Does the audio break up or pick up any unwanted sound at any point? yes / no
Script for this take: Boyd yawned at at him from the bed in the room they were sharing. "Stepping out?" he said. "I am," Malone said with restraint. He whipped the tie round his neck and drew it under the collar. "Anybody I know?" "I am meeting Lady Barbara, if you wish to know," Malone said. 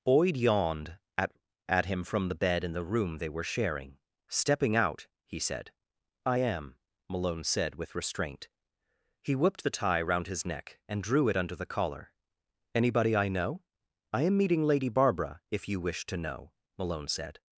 no